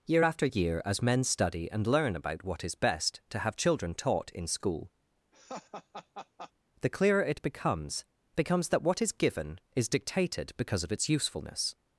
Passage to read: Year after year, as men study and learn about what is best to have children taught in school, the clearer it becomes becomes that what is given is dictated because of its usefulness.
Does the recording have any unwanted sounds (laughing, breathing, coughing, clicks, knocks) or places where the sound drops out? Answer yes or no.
yes